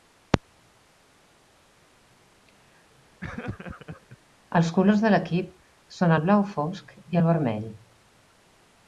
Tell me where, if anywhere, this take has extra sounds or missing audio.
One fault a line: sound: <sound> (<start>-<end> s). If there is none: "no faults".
sound: laugh (3.2-4.2 s)